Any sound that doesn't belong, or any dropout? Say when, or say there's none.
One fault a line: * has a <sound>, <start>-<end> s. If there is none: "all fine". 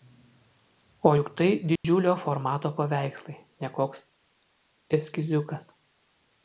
* has a dropout, 1.8-1.8 s